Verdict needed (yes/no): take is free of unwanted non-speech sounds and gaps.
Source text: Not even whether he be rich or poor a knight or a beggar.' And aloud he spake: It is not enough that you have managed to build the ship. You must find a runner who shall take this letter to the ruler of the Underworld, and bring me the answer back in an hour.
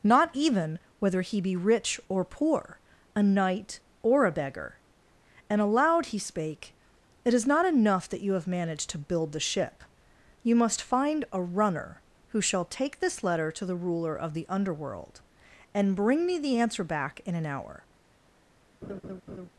no